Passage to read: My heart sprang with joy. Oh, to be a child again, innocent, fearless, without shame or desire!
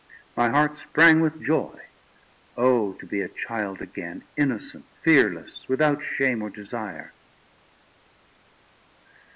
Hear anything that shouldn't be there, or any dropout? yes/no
no